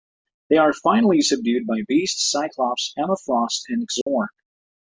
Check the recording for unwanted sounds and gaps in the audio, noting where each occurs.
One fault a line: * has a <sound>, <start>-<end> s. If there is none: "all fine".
* has a dropout, 4.0-4.1 s